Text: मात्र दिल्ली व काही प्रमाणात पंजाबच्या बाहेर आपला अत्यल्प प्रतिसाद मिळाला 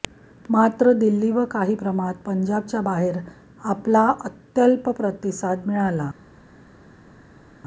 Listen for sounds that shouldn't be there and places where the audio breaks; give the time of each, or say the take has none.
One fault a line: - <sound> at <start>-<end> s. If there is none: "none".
none